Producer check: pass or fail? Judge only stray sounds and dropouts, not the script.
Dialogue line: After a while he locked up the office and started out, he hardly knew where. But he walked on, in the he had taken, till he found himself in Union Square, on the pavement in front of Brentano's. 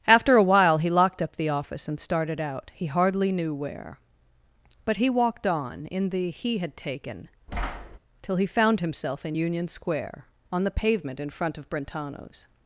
fail